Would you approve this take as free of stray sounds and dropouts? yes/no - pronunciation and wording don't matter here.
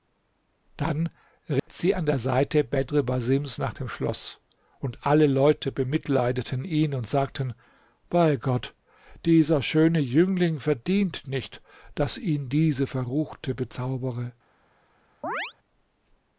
no